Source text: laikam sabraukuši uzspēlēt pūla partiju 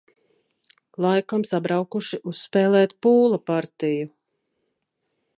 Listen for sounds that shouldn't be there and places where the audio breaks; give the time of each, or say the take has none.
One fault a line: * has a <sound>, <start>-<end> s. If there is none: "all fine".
all fine